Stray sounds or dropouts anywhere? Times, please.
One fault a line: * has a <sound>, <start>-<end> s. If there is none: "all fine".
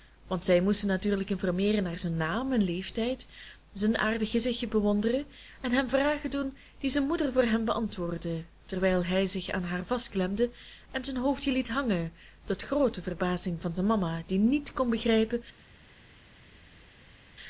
all fine